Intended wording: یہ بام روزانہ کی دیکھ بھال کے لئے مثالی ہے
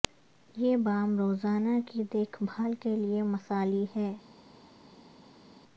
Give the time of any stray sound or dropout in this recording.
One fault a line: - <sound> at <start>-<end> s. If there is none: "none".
none